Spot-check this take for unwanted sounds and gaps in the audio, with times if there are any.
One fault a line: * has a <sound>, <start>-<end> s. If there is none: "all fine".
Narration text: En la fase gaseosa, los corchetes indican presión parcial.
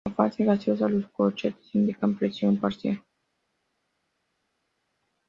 all fine